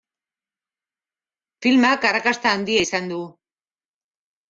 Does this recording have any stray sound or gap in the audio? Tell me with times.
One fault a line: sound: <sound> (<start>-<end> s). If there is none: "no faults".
no faults